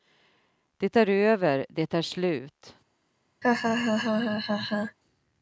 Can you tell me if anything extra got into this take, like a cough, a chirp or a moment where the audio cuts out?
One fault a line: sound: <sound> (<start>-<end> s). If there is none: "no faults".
sound: laugh (3.4-5.0 s)